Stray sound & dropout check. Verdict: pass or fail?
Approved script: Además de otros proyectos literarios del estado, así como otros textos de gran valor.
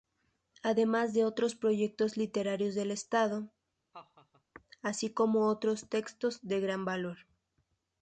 fail